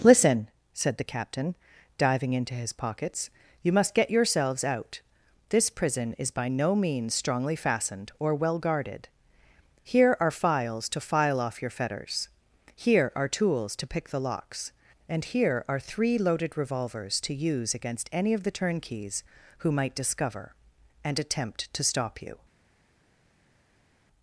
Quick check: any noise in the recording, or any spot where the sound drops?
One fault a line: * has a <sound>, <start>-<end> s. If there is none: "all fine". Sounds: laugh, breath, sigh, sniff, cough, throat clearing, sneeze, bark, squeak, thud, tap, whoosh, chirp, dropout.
all fine